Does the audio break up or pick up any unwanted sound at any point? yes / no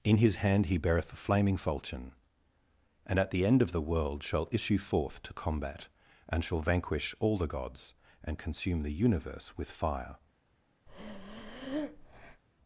yes